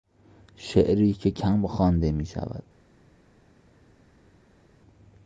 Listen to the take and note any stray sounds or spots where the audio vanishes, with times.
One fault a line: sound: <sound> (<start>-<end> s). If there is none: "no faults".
no faults